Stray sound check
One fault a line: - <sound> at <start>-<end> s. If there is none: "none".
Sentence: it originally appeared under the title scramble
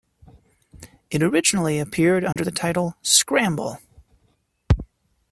- dropout at 2.3-2.4 s